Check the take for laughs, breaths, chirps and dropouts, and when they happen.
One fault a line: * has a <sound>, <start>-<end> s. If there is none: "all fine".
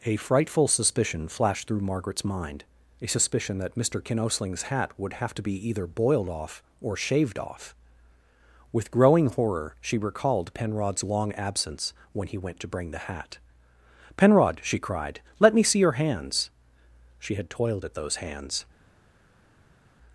all fine